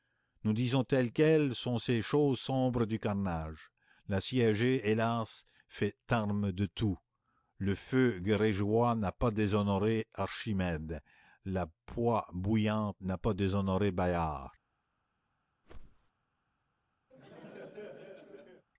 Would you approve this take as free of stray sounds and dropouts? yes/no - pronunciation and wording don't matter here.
no